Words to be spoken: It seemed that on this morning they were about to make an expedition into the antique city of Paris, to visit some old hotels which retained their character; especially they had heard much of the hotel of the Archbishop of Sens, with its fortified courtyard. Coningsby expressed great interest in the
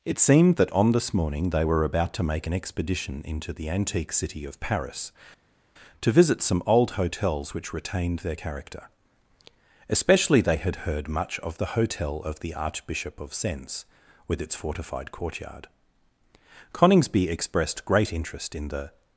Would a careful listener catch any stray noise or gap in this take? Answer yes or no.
no